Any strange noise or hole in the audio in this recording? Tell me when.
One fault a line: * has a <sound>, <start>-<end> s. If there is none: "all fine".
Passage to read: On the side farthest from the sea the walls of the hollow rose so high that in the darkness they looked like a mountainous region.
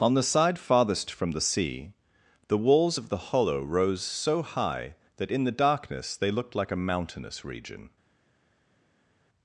all fine